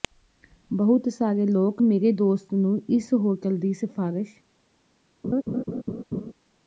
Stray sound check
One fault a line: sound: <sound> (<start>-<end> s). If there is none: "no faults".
sound: laugh (5.2-6.3 s)